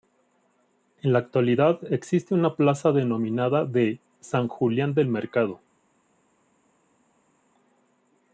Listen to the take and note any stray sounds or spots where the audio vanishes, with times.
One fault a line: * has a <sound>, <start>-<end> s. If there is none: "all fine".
all fine